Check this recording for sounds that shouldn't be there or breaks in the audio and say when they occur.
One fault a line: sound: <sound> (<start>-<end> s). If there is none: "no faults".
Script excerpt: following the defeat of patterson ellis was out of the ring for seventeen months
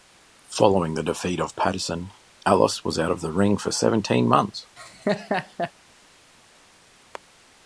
sound: laugh (4.8-5.7 s)